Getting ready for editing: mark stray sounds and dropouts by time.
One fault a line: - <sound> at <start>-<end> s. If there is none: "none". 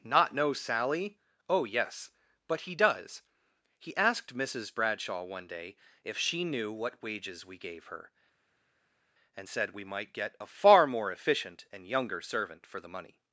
none